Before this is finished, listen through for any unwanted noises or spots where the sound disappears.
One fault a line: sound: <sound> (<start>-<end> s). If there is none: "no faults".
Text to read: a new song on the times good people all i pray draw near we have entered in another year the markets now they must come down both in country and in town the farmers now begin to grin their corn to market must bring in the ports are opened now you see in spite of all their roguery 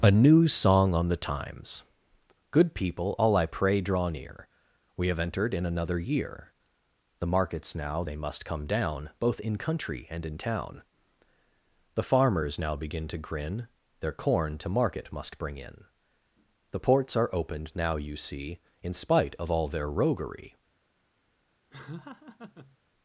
sound: laugh (21.7-22.8 s)